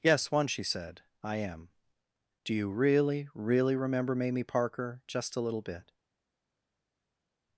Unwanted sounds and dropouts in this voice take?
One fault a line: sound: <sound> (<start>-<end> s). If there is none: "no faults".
no faults